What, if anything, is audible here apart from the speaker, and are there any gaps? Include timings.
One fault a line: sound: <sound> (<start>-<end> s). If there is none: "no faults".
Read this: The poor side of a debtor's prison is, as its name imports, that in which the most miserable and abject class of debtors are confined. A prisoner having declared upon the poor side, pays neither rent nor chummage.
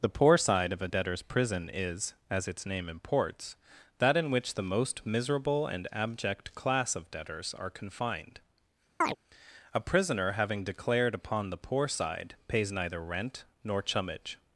sound: chirp (9.0-9.2 s)